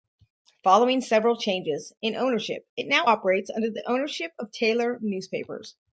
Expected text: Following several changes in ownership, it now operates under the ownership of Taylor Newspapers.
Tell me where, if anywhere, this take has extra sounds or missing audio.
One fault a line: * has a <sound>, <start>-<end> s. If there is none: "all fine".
all fine